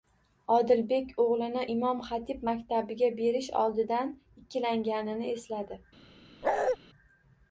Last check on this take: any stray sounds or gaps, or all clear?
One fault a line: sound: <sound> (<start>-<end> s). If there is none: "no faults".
sound: bark (6.4-6.8 s)